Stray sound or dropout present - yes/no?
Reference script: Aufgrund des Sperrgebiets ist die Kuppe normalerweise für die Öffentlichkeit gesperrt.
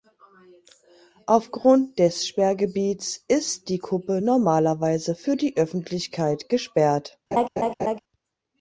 yes